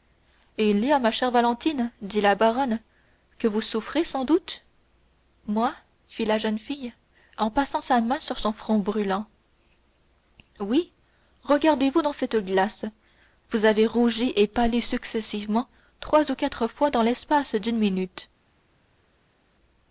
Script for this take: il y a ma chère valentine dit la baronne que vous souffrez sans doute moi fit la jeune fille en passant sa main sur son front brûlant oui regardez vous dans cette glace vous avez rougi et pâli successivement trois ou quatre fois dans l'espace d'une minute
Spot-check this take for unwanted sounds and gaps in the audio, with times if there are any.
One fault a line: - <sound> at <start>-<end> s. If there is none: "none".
none